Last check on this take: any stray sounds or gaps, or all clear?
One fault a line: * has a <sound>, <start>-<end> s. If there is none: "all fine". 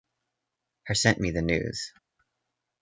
all fine